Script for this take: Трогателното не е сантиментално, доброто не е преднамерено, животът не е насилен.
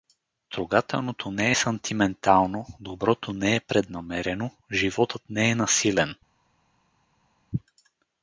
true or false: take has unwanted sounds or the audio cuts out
false